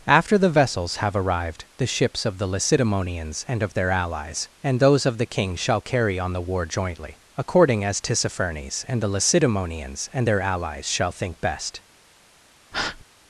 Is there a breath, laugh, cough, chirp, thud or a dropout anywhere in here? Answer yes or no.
yes